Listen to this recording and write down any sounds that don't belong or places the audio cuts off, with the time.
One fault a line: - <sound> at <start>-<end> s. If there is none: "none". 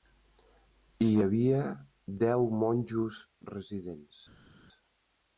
none